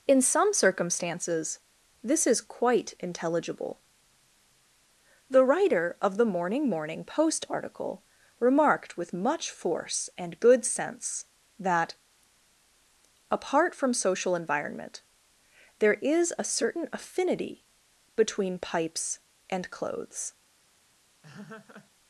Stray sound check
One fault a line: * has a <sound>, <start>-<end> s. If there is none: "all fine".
* has a laugh, 21.2-21.9 s